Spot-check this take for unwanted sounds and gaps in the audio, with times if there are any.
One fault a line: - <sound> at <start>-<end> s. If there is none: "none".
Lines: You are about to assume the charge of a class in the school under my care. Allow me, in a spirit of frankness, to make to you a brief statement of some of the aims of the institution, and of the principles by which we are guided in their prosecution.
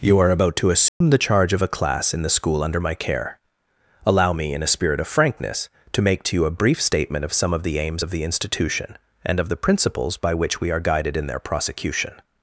- dropout at 0.9-1.0 s